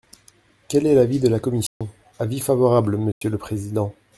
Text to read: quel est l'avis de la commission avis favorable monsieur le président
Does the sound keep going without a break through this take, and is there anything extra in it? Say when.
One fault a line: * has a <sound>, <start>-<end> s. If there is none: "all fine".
* has a dropout, 1.7-1.8 s
* has a dropout, 3.1-3.2 s